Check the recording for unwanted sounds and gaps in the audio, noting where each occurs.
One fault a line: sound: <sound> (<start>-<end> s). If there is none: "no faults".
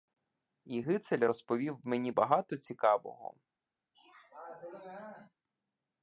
sound: throat clearing (3.9-5.3 s)